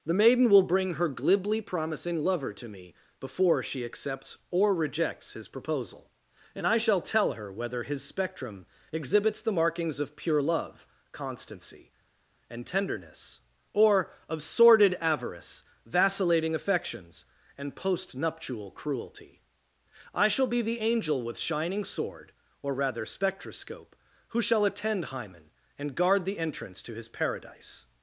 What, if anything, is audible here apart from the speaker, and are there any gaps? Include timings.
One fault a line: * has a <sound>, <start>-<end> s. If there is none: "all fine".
all fine